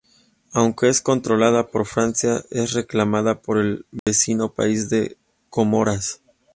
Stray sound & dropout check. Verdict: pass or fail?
fail